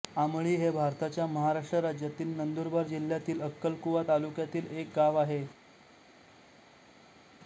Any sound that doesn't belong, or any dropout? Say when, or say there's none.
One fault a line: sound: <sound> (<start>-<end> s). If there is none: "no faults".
no faults